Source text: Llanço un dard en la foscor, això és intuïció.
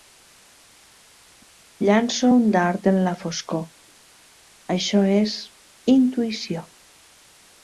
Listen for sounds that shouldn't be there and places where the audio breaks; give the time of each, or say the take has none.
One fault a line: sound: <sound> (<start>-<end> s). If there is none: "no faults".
no faults